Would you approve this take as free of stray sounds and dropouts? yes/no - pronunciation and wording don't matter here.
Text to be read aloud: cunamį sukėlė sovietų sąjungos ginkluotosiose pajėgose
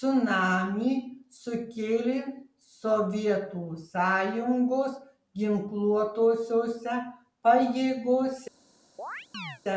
no